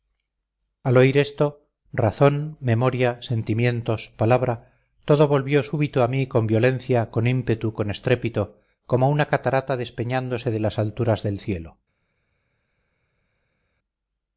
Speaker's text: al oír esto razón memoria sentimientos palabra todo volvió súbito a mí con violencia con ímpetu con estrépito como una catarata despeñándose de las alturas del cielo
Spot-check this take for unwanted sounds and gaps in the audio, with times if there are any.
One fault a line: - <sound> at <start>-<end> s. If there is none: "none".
none